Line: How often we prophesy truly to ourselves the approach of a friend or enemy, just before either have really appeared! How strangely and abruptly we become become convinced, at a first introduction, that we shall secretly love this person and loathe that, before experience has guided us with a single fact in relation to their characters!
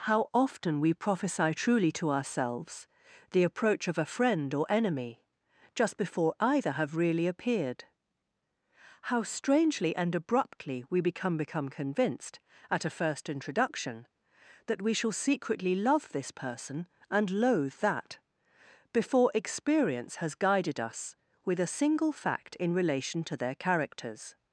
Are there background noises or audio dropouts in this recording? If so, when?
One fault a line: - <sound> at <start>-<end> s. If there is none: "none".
none